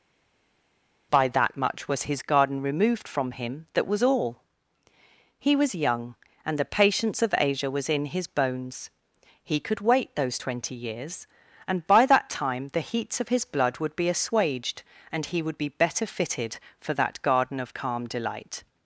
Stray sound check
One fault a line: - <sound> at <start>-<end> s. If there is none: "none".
none